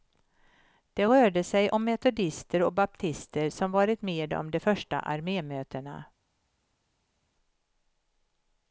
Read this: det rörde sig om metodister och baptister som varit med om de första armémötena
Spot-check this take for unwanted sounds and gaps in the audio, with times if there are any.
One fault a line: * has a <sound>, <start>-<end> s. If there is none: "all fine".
all fine